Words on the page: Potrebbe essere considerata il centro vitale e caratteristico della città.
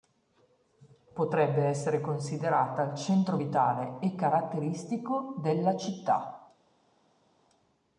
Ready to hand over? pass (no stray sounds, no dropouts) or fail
pass